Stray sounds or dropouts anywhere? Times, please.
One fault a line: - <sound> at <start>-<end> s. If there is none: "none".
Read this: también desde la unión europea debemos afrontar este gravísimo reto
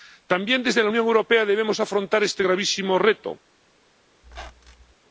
- squeak at 4.2-4.9 s